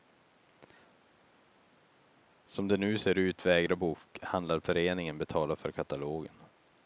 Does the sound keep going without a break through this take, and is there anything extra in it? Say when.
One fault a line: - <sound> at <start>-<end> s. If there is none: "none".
none